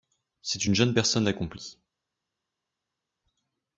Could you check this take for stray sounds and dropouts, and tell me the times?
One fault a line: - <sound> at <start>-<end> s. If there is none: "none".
none